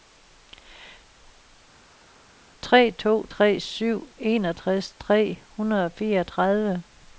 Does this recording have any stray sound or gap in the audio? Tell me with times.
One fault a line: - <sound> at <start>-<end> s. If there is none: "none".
none